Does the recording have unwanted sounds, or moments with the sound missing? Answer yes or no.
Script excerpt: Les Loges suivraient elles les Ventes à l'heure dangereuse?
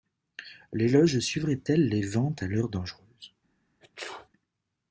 yes